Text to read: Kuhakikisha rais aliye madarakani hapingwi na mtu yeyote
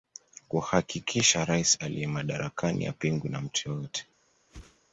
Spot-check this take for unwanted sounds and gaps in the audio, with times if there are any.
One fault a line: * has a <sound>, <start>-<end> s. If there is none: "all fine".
* has a whoosh, 4.5-4.8 s